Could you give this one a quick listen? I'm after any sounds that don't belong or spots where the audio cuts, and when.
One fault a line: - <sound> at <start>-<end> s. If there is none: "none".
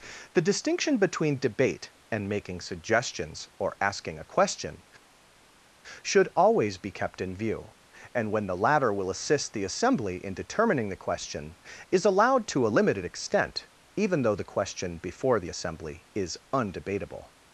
none